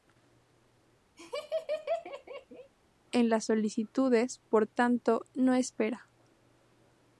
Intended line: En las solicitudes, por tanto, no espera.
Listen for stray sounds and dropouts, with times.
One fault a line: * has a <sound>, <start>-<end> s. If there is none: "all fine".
* has a laugh, 1.2-2.7 s